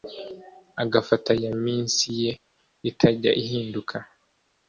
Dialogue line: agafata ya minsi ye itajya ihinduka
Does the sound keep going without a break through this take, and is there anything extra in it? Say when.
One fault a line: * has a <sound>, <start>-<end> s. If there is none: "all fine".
all fine